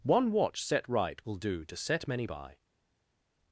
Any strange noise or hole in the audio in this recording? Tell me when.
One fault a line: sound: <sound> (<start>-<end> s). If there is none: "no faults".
no faults